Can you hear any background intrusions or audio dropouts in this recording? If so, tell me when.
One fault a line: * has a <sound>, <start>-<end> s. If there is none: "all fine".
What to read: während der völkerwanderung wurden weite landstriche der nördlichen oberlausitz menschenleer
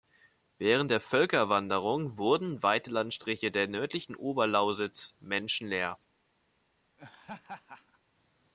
* has a laugh, 7.0-8.0 s